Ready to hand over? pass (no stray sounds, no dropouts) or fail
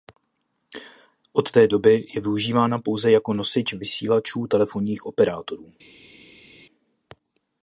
pass